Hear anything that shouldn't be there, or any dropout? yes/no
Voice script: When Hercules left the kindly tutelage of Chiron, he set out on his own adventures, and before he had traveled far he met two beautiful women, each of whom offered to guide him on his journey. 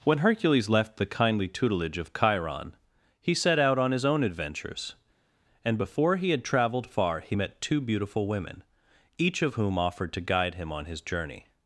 no